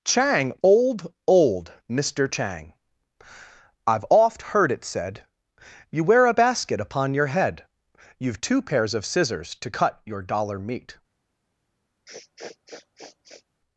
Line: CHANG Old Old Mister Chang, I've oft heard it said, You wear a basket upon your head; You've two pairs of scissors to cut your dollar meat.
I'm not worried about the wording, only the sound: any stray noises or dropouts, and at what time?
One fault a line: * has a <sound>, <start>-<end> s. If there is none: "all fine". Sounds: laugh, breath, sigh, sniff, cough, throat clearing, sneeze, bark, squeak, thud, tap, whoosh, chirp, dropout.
* has a sniff, 12.1-13.4 s